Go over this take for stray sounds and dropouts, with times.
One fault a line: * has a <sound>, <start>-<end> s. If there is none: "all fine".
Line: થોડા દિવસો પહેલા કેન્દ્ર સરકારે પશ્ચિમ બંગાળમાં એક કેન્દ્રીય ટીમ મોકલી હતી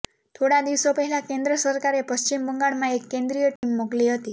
* has a dropout, 3.6-3.6 s